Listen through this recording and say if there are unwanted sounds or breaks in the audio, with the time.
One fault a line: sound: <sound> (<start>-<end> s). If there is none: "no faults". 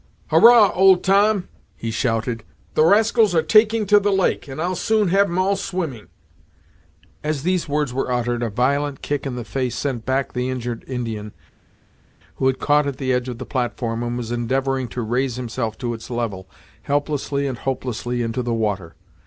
no faults